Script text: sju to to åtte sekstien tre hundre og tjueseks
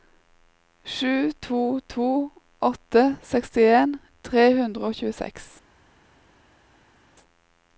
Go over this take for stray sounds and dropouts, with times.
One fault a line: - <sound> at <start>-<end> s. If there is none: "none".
none